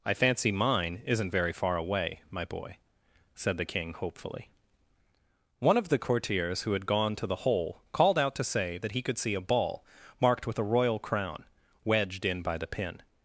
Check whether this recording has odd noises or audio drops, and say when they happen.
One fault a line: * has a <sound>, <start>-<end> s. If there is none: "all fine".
all fine